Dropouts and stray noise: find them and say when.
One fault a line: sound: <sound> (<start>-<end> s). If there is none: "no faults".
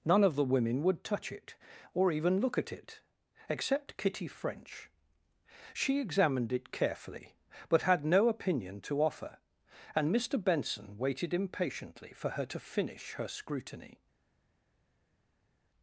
no faults